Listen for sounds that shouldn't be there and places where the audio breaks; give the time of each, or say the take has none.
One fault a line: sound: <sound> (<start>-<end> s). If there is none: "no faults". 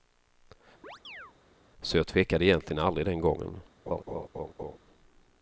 sound: chirp (0.8-1.3 s)
sound: laugh (3.9-4.8 s)